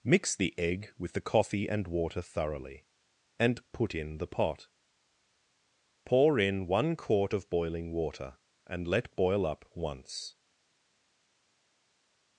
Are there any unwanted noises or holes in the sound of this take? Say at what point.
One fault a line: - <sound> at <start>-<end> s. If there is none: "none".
none